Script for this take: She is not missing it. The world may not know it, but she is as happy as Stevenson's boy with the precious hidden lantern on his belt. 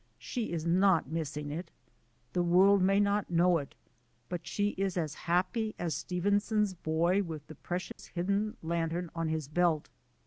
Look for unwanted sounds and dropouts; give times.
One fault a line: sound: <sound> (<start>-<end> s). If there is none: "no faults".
sound: dropout (7.9-8.0 s)